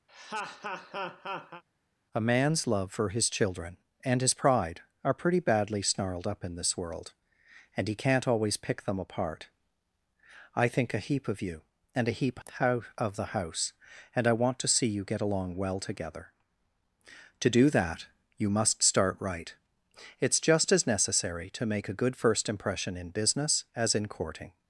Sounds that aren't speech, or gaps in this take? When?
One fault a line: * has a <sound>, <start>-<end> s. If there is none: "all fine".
* has a laugh, 0.1-1.6 s